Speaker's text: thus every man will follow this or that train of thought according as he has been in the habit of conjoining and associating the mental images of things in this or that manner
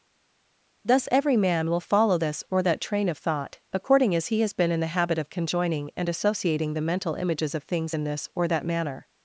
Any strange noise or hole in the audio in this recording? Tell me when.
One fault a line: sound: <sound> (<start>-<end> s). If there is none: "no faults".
no faults